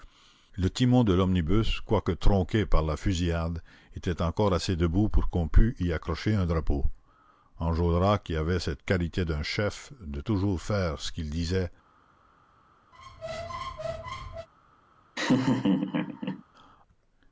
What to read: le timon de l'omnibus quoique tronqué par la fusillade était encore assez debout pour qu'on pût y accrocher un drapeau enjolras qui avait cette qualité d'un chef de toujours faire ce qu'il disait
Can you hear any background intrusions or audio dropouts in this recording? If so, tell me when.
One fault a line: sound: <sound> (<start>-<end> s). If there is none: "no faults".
sound: squeak (12.9-14.5 s)
sound: laugh (15.2-16.4 s)